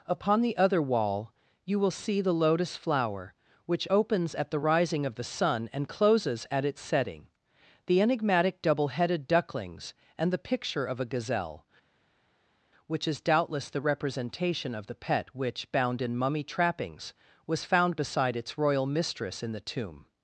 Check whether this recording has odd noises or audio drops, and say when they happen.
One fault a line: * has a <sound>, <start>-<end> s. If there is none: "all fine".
all fine